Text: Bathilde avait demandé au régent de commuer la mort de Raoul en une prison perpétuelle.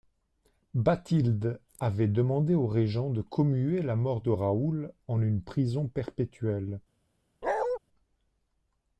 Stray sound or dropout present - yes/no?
yes